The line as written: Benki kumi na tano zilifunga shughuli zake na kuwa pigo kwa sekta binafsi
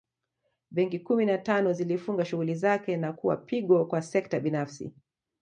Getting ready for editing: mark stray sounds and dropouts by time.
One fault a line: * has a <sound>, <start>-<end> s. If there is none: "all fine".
all fine